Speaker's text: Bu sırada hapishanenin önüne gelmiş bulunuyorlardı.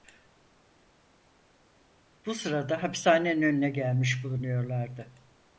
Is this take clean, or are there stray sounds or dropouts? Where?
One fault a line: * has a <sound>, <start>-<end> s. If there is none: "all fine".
all fine